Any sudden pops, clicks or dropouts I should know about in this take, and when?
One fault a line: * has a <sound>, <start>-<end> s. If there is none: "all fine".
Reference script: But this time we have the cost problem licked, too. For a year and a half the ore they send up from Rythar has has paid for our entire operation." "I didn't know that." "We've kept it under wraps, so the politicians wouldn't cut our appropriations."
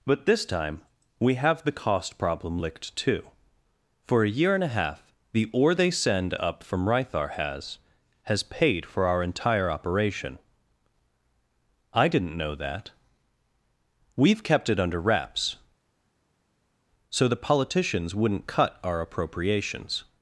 all fine